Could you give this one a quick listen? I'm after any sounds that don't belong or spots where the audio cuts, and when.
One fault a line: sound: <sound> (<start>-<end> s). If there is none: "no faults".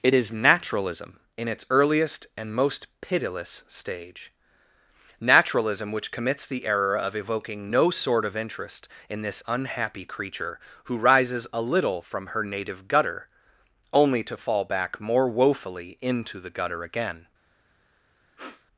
sound: sniff (18.4-18.7 s)